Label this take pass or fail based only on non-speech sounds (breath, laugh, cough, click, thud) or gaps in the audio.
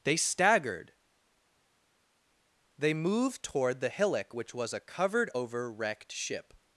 pass